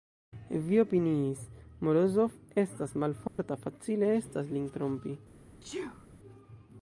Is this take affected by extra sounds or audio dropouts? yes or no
yes